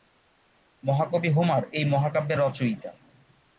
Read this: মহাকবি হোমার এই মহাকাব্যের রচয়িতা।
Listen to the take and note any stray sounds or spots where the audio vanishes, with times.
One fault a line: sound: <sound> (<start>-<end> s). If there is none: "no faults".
no faults